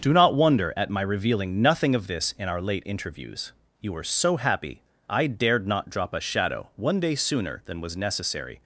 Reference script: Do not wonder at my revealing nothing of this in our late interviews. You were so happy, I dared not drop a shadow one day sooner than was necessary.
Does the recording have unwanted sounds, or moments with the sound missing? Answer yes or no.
no